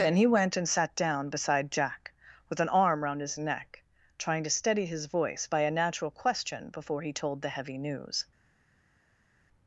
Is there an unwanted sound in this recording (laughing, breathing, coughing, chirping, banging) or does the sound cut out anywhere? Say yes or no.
no